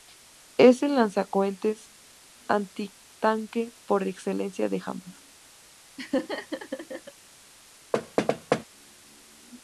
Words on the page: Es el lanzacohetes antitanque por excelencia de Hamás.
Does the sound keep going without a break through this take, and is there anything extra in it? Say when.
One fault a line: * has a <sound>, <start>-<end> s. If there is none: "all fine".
* has a laugh, 6.0-7.1 s
* has a thud, 7.9-8.7 s